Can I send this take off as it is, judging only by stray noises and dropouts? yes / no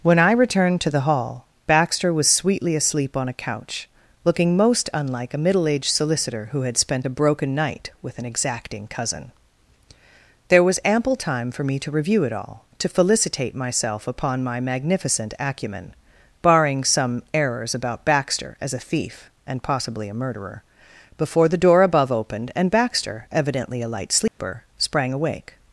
no